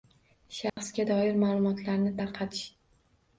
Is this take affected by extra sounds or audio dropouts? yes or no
yes